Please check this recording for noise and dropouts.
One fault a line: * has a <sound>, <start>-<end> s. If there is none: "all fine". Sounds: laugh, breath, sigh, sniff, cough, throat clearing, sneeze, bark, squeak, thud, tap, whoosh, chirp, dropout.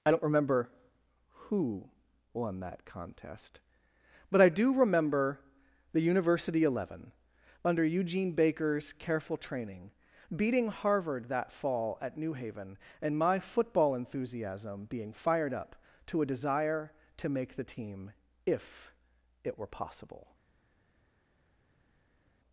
all fine